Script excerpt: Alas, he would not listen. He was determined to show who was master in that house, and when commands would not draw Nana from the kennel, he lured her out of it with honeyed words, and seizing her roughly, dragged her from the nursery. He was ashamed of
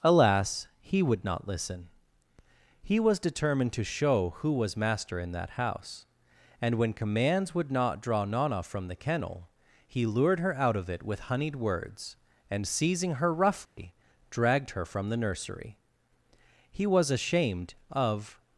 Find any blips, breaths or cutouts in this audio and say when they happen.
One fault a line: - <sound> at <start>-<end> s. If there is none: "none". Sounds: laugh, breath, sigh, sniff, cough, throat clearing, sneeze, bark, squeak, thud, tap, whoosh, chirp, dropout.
- dropout at 13.7-13.8 s